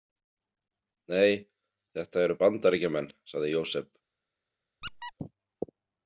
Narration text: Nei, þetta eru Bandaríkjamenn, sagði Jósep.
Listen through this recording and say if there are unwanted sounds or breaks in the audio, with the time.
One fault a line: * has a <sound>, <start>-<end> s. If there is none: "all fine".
* has a squeak, 4.8-5.1 s